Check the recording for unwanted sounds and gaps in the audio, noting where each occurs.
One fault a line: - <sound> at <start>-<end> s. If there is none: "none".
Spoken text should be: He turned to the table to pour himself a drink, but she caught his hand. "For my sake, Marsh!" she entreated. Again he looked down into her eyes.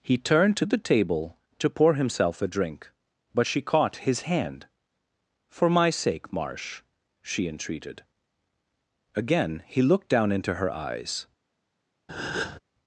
- breath at 12.1-12.6 s